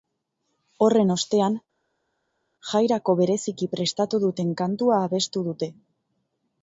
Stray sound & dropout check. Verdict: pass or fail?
pass